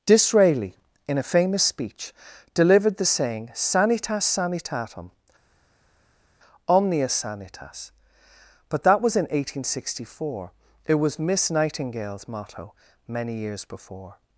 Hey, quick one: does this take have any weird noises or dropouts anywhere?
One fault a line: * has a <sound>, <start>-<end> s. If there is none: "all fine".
all fine